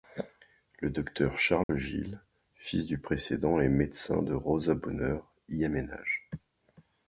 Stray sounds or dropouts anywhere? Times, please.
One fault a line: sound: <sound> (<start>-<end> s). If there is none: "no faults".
sound: dropout (1.6-1.7 s)